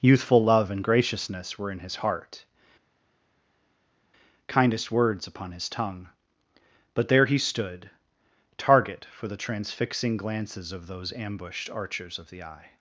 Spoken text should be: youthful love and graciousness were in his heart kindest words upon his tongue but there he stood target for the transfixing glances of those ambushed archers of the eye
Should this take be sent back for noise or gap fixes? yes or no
no